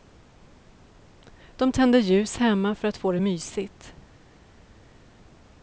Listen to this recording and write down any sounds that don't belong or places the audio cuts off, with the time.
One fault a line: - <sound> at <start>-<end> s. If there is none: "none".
none